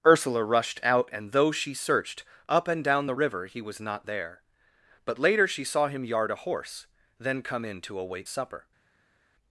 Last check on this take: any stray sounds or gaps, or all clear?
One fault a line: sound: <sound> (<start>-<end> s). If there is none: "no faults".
no faults